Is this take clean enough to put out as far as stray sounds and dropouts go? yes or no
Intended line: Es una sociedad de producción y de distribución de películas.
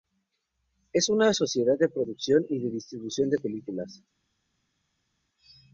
yes